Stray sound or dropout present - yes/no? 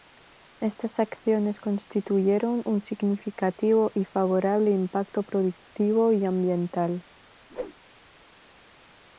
yes